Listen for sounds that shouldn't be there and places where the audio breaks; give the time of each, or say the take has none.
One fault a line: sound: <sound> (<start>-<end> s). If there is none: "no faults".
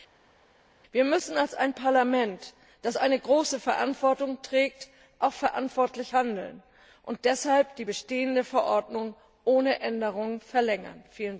no faults